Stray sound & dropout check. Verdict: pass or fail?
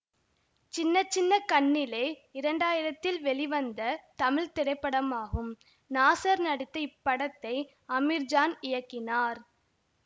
pass